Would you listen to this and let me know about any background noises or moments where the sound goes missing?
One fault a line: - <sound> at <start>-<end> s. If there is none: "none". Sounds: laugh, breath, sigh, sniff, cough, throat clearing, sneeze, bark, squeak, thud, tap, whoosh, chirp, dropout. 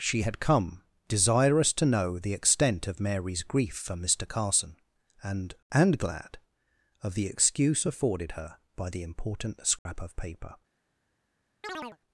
- dropout at 9.8-9.9 s
- chirp at 11.6-12.0 s